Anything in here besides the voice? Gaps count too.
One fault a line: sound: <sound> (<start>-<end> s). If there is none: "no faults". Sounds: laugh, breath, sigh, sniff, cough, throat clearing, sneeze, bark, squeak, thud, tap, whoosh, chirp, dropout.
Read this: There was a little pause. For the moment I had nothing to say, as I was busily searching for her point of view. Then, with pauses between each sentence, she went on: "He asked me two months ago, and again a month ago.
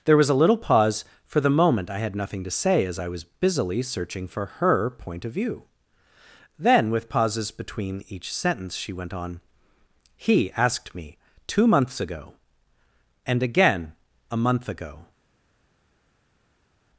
no faults